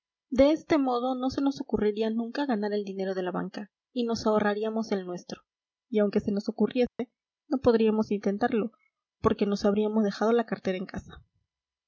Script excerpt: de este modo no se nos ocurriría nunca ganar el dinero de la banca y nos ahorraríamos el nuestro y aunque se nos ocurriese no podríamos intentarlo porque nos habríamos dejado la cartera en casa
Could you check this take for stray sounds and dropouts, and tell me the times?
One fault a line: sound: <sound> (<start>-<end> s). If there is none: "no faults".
sound: dropout (6.9-7.0 s)